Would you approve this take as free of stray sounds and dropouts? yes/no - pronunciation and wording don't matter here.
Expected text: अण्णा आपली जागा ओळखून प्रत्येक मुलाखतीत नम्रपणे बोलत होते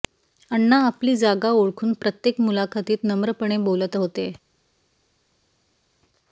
yes